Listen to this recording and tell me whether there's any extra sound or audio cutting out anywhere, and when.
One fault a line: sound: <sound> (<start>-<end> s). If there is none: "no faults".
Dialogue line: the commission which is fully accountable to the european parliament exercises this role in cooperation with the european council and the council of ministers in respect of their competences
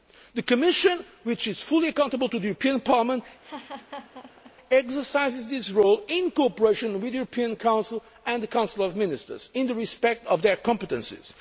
sound: laugh (3.4-4.5 s)